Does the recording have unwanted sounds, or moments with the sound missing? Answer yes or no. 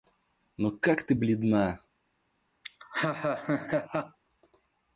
yes